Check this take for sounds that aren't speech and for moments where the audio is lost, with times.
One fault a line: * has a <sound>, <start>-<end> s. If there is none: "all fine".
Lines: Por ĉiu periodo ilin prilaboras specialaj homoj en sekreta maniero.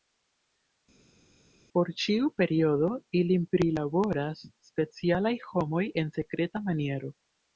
all fine